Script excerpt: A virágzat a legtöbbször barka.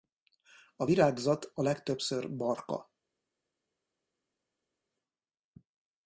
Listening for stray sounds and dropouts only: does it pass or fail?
pass